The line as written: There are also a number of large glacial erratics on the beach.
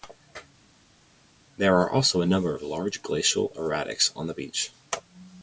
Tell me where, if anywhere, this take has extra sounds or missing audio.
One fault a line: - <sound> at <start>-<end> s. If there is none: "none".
none